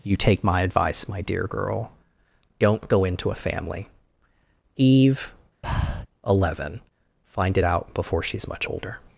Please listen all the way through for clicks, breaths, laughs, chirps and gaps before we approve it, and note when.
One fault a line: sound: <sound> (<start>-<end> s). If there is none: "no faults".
sound: breath (5.6-6.1 s)